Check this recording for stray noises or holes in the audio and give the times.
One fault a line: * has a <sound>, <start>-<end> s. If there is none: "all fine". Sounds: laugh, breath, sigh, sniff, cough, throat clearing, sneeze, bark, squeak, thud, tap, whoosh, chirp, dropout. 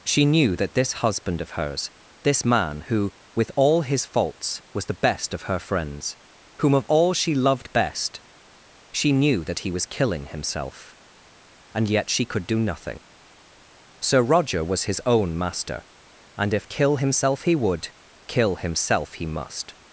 all fine